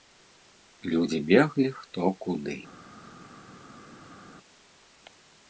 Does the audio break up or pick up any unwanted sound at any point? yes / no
no